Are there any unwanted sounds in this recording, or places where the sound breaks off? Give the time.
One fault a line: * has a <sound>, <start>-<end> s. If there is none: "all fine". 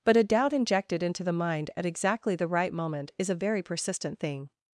all fine